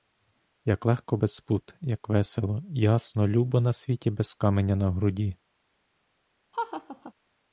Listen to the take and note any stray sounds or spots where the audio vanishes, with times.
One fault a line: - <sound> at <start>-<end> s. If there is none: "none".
- laugh at 6.5-7.1 s